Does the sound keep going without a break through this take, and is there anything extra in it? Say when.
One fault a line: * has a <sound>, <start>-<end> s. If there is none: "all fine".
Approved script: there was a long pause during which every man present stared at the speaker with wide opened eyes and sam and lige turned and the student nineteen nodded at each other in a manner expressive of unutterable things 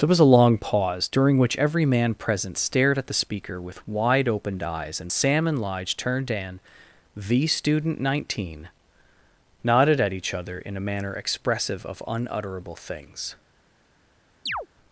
* has a chirp, 14.5-14.7 s